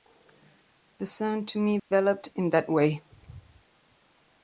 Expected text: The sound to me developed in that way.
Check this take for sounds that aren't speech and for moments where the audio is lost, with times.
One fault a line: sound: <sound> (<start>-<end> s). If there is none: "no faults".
sound: dropout (1.8-1.9 s)